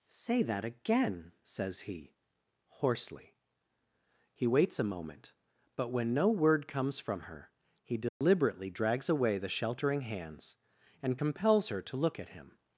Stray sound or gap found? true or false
true